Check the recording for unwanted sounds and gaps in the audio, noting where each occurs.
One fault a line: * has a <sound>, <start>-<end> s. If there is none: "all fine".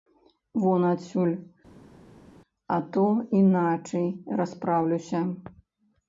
all fine